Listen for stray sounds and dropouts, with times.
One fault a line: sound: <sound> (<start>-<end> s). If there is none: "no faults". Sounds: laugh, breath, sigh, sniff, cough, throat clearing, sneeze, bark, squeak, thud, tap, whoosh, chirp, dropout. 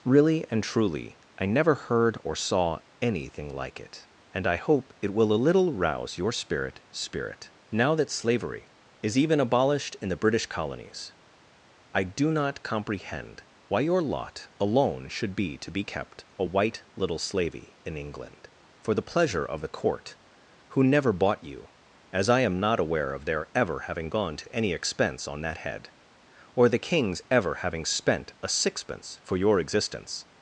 no faults